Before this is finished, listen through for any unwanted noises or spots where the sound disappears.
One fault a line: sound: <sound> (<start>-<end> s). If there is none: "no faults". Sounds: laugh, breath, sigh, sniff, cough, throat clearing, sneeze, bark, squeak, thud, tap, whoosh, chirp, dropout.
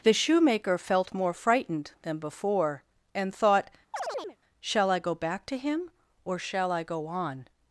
sound: chirp (3.9-4.4 s)